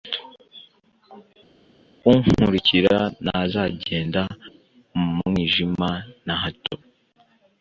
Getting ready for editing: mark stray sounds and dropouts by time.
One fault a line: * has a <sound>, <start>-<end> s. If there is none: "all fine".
all fine